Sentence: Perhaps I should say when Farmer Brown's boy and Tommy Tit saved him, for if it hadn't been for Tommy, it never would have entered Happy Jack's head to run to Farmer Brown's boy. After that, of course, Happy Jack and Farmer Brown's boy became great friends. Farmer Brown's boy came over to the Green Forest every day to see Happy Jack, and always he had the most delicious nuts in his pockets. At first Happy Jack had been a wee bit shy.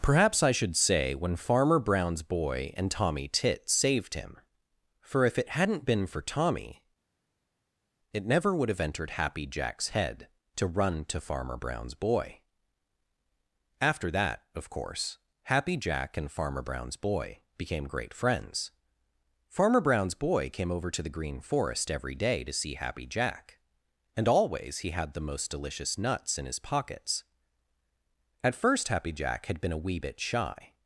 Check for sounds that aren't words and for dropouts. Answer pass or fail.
pass